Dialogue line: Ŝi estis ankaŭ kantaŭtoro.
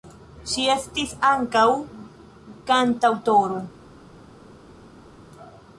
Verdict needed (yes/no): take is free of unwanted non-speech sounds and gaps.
yes